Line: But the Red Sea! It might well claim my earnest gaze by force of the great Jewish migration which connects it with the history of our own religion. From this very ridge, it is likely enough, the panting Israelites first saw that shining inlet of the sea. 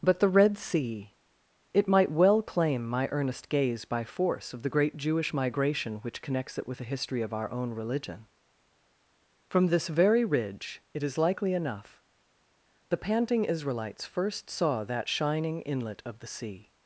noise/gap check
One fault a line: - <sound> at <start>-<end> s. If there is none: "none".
none